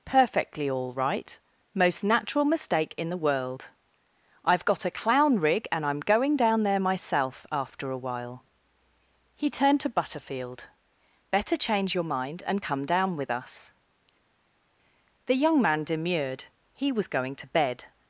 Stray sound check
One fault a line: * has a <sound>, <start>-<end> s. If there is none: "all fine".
all fine